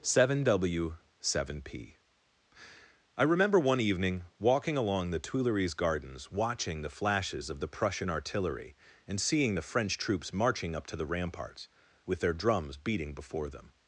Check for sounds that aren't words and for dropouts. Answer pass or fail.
pass